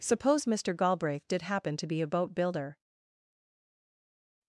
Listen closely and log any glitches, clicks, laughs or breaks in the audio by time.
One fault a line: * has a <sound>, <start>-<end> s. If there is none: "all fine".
all fine